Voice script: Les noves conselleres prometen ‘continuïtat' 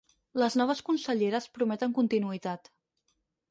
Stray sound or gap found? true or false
false